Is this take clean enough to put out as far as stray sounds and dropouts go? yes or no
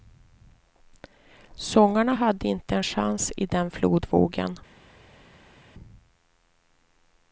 yes